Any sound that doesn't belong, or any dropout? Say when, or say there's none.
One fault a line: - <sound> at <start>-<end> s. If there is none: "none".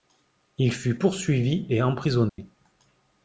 - dropout at 2.3-2.4 s